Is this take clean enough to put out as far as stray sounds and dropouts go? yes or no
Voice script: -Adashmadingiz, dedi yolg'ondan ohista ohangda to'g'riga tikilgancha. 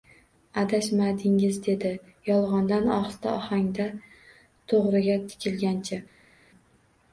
yes